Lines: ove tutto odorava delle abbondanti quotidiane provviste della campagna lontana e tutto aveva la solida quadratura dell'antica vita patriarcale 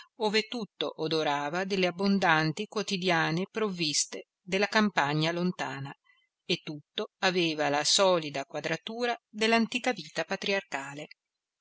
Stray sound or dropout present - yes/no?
no